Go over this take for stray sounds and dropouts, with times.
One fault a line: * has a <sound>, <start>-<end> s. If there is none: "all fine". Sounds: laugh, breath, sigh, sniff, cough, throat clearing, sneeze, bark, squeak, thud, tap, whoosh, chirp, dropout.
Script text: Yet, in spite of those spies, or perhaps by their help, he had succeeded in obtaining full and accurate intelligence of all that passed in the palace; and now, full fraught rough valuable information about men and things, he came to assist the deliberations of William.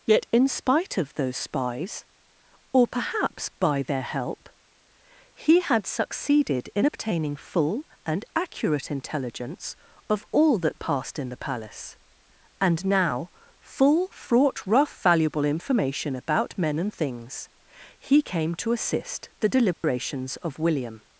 * has a dropout, 19.7-19.8 s